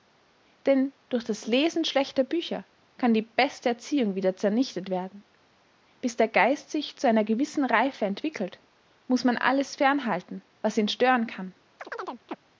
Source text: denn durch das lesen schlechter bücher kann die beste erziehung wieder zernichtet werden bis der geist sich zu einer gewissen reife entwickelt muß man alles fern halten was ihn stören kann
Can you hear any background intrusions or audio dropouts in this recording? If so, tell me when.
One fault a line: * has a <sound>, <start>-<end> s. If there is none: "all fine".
* has a chirp, 11.8-12.4 s